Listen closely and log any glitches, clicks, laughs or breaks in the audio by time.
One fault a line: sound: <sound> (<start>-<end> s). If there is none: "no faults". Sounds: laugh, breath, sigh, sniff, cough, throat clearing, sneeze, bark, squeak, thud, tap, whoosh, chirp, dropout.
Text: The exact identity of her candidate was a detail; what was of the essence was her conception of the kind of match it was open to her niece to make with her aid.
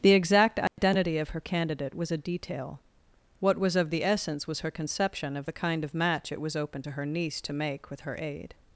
sound: dropout (0.7-0.8 s)